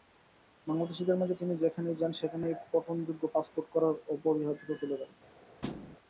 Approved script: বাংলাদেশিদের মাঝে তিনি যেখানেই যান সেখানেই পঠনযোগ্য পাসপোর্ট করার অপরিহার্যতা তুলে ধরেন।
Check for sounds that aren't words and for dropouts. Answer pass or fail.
fail